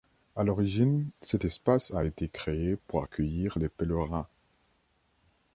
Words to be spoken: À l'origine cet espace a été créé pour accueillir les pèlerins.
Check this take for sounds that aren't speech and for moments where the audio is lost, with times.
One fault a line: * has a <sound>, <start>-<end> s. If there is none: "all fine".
all fine